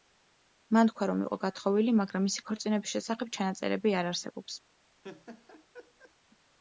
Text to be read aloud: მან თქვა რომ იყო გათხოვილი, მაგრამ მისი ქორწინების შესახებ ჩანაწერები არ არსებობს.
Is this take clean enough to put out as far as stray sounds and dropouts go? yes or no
no